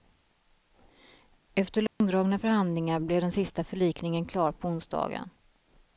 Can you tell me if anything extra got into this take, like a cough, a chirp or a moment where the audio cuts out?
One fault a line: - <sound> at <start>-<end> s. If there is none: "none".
- dropout at 1.9-2.0 s